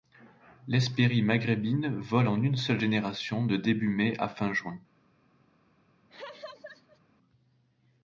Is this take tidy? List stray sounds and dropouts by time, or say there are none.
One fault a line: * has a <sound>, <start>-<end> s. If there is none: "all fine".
* has a laugh, 6.1-7.0 s